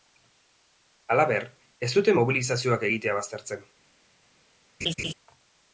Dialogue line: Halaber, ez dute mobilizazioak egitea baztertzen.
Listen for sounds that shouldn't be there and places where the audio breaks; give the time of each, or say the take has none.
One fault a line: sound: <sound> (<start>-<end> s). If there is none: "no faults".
sound: laugh (4.8-5.1 s)